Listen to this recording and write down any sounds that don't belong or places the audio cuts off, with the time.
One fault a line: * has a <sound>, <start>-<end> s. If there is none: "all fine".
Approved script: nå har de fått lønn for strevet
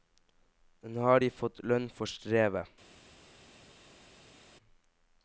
all fine